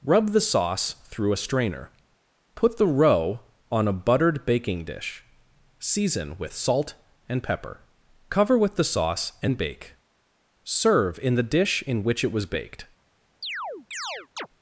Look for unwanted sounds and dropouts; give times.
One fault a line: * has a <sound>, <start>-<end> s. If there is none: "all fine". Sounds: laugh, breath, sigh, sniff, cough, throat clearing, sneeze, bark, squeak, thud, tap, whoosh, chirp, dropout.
* has a chirp, 13.4-14.5 s